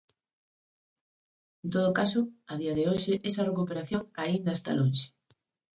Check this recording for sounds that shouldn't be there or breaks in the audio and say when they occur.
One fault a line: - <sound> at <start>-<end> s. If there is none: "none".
none